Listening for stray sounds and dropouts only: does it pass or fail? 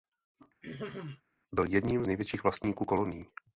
fail